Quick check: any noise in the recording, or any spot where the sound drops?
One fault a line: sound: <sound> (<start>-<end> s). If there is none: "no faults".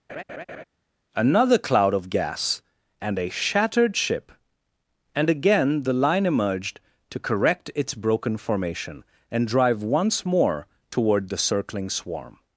sound: laugh (0.1-0.6 s)